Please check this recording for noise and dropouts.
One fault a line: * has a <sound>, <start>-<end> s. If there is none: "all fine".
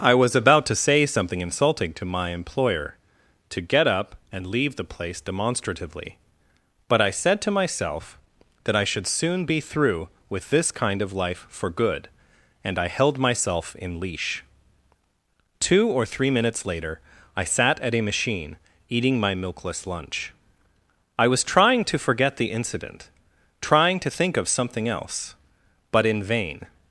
all fine